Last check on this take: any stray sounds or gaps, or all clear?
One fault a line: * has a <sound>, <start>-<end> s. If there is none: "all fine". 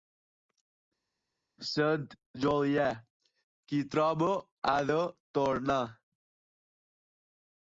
all fine